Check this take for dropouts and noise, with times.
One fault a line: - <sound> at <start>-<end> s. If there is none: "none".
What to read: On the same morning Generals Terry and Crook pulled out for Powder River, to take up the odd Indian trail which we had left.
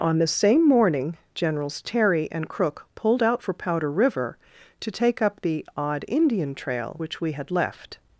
none